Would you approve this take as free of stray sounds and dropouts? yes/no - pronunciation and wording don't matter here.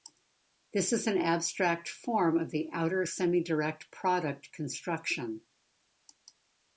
yes